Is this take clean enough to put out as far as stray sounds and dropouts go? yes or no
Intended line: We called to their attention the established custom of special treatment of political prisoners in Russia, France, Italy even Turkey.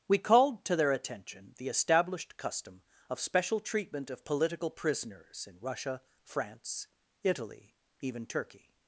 yes